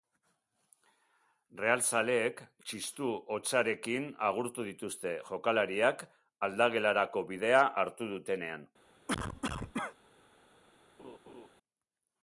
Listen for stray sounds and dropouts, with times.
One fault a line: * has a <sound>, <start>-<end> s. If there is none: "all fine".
* has a cough, 9.1-10.0 s
* has a laugh, 11.0-11.5 s